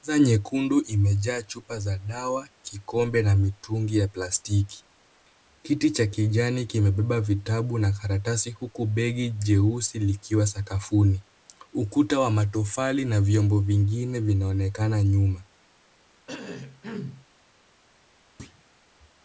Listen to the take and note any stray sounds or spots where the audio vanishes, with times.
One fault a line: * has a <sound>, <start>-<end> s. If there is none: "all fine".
* has a cough, 16.3-17.3 s
* has a thud, 18.4-18.6 s